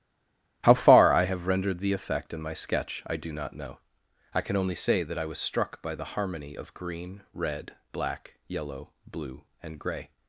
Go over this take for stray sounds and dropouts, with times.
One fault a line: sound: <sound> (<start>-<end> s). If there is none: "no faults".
no faults